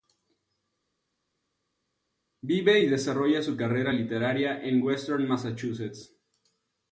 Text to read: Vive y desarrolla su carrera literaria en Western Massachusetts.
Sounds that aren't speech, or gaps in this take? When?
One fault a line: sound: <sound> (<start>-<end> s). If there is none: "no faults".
no faults